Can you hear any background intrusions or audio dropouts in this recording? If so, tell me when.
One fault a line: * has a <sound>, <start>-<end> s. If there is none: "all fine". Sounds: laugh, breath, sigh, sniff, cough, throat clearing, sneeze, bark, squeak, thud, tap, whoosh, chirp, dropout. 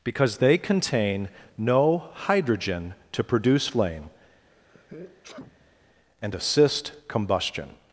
* has a sneeze, 4.5-5.9 s